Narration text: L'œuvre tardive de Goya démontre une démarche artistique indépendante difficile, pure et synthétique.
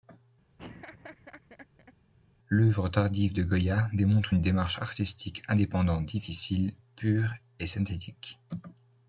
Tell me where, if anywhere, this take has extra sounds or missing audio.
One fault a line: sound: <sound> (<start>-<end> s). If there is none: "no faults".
sound: laugh (0.6-1.9 s)